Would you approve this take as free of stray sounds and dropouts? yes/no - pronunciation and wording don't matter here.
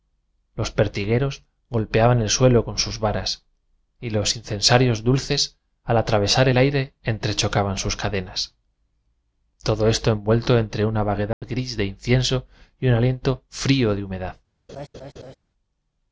no